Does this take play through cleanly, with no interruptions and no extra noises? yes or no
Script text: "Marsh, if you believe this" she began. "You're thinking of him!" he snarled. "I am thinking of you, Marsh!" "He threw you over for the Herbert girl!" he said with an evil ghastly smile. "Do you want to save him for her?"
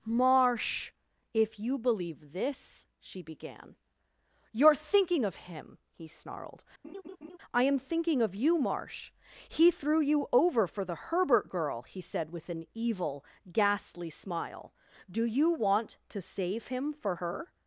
no